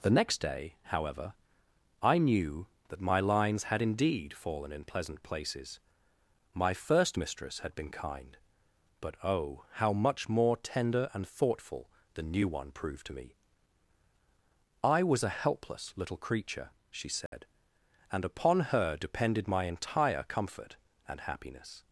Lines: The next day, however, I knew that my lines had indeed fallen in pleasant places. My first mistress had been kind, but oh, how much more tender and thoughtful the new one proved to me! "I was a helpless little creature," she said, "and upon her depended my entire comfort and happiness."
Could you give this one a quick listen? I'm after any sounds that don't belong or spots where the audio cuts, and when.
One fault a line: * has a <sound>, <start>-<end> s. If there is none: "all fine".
* has a dropout, 17.3-17.3 s